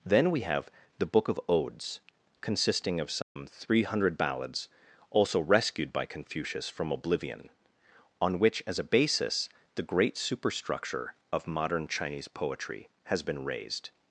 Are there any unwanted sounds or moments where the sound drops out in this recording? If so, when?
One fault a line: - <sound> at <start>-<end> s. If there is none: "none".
- dropout at 3.2-3.4 s